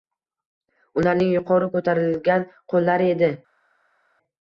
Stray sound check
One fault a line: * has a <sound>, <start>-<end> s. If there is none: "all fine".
all fine